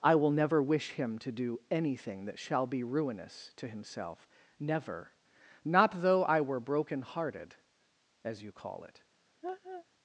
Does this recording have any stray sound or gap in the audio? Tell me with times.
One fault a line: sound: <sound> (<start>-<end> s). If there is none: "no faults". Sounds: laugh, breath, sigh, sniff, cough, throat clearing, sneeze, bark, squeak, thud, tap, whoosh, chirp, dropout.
sound: laugh (9.4-9.9 s)